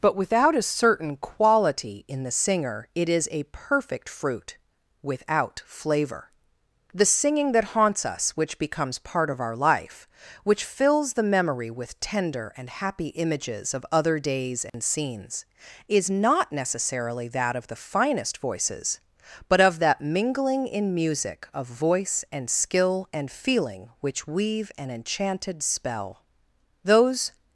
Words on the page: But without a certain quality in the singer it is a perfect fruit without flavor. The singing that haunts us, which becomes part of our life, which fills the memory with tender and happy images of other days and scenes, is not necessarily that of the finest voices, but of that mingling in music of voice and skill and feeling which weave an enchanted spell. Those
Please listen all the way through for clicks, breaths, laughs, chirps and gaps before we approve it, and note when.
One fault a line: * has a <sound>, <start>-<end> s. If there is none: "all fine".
* has a dropout, 14.7-14.7 s